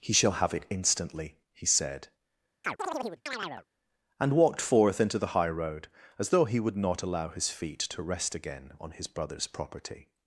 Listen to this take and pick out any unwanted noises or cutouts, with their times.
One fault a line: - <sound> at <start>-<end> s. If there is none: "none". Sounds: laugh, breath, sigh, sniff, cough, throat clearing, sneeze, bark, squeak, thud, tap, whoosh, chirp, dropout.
- chirp at 2.6-3.7 s